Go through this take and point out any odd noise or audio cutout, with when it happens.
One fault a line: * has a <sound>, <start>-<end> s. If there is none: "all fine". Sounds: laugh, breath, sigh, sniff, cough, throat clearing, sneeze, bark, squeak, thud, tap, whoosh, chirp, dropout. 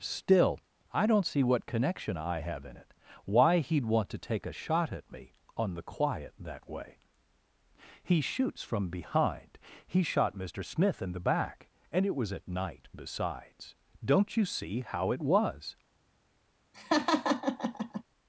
* has a laugh, 16.7-18.0 s